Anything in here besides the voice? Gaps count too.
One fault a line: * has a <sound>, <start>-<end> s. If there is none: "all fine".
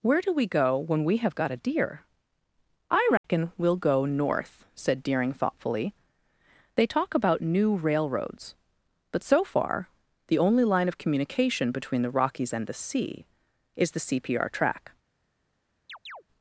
* has a dropout, 3.2-3.2 s
* has a chirp, 15.9-16.2 s